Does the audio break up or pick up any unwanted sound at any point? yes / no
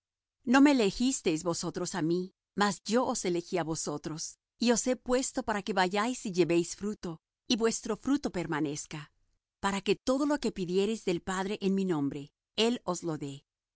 no